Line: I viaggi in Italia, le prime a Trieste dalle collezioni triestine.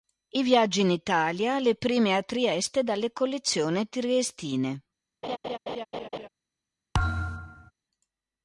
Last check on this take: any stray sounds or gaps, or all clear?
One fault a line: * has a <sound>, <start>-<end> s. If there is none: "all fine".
* has a laugh, 5.2-6.3 s
* has a thud, 6.9-7.7 s